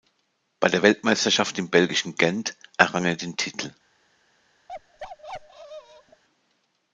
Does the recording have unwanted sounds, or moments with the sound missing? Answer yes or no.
yes